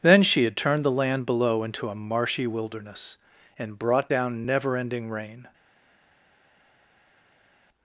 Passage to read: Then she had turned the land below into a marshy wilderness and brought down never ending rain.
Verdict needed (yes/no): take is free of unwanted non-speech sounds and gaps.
yes